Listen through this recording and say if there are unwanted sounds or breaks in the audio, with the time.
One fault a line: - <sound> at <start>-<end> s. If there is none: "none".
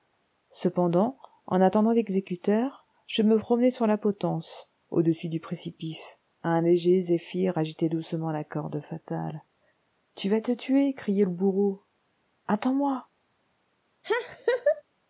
- laugh at 14.0-14.8 s